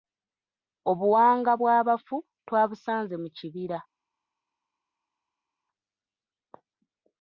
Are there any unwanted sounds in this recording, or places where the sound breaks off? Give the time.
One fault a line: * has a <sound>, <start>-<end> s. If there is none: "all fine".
all fine